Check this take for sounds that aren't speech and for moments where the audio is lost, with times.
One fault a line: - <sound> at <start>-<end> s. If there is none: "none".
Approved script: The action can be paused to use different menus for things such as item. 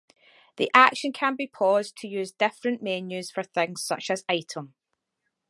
none